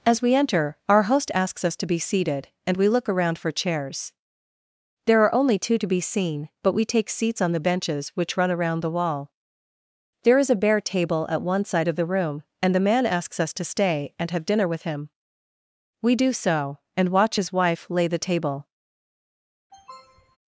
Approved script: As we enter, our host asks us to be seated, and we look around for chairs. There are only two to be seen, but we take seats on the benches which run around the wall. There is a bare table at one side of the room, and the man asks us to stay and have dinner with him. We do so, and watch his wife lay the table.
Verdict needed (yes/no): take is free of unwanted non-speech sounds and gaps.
no